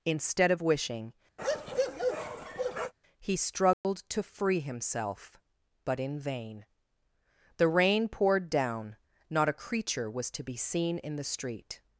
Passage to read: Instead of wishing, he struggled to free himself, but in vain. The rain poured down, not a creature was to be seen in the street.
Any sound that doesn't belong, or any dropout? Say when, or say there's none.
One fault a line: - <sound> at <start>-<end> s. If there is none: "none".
- bark at 1.4-2.9 s
- dropout at 3.7-3.8 s